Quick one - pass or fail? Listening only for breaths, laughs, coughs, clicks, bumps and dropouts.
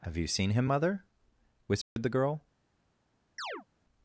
fail